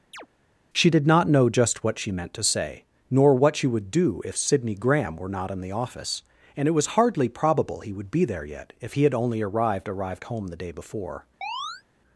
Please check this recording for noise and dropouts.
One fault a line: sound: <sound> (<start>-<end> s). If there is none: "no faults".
sound: chirp (0.1-0.3 s)
sound: chirp (11.4-11.8 s)